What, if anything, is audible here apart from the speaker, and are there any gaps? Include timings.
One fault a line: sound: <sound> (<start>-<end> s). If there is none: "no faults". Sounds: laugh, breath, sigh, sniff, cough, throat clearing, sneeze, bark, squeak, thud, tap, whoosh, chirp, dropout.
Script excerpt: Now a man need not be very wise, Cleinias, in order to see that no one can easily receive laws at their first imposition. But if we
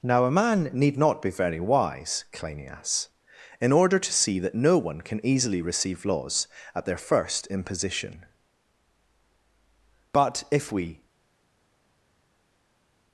no faults